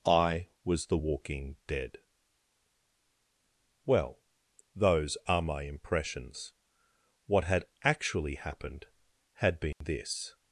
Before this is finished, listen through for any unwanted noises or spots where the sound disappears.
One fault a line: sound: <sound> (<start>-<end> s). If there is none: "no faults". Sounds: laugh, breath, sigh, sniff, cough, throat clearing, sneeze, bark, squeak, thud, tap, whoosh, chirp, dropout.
sound: dropout (9.7-9.8 s)